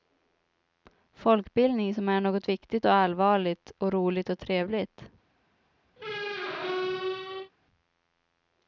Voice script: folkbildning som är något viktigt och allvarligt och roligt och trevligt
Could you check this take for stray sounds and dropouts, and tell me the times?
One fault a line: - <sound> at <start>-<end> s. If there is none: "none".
- squeak at 6.0-7.5 s